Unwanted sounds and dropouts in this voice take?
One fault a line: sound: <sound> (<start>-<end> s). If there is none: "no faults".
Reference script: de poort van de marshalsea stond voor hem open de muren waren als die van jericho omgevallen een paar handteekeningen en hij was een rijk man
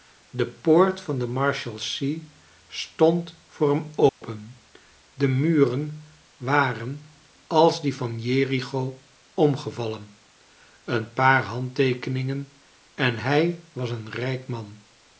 sound: dropout (4.1-4.2 s)